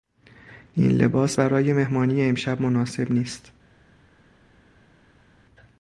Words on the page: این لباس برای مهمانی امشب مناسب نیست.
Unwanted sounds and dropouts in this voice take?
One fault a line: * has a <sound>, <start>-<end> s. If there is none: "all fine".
all fine